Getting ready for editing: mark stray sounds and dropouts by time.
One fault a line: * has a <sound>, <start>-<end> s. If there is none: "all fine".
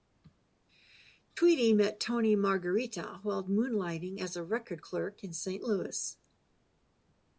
all fine